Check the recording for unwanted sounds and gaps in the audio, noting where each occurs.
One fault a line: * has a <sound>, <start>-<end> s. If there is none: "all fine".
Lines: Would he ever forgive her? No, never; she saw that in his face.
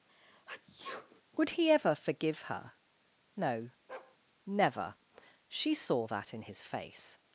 * has a sneeze, 0.1-1.2 s
* has a bark, 3.9-4.2 s